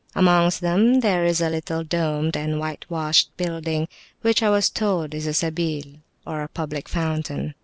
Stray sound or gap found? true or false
false